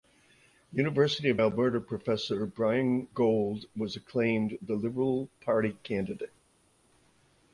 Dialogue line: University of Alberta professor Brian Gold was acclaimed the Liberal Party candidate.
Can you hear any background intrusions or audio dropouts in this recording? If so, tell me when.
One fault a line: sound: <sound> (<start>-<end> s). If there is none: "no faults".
no faults